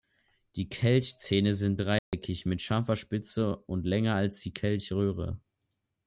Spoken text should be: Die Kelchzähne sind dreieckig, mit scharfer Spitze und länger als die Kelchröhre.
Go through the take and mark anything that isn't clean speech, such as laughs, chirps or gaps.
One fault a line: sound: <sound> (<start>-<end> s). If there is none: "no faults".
sound: dropout (2.0-2.1 s)